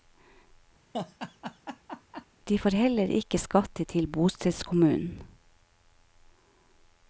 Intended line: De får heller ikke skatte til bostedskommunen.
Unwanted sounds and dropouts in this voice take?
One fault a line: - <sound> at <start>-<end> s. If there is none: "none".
- laugh at 0.9-2.3 s